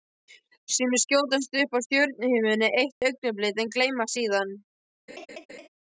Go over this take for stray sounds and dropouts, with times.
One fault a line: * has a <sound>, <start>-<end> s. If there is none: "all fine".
* has a dropout, 3.0-3.0 s
* has a laugh, 5.1-5.7 s